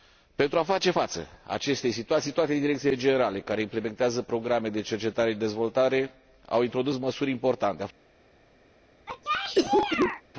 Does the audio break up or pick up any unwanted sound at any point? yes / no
yes